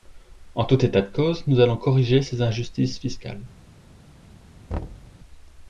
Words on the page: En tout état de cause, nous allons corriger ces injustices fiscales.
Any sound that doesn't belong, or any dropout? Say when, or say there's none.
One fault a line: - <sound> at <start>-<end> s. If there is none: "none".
- thud at 4.7-5.2 s